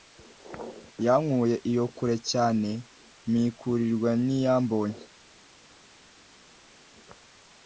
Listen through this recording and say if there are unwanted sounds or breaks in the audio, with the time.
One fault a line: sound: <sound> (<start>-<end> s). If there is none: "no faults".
no faults